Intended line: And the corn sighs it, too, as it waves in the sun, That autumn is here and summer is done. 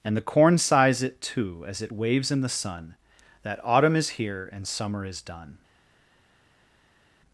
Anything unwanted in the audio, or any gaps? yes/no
no